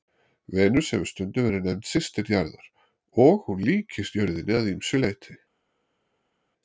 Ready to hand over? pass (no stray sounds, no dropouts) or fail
pass